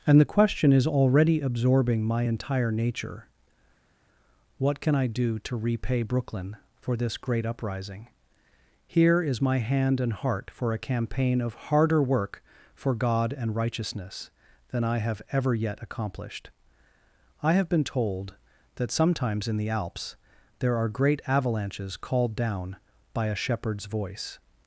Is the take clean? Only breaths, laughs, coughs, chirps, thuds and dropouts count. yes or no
yes